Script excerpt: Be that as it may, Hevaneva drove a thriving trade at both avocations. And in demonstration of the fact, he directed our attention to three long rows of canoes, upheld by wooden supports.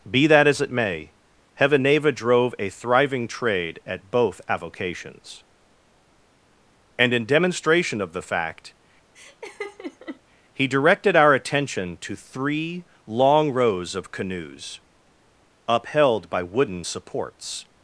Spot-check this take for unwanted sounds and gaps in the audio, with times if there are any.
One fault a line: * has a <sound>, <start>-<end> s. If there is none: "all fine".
* has a laugh, 9.1-10.2 s